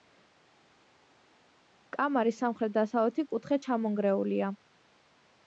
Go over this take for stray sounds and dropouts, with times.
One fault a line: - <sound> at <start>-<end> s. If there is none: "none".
none